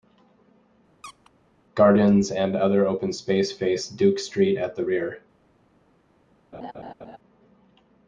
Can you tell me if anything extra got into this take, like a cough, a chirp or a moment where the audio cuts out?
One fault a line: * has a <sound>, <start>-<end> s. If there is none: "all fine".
* has a squeak, 1.0-1.3 s
* has a laugh, 6.5-7.2 s